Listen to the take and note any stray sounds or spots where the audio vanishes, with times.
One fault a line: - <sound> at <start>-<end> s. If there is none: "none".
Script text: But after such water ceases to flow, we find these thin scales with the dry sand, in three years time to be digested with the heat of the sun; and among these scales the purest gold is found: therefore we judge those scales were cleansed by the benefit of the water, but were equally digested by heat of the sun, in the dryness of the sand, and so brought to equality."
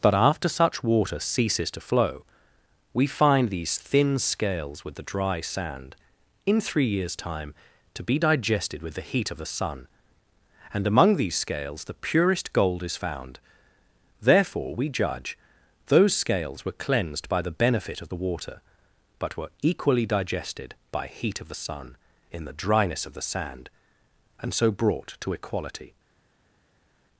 none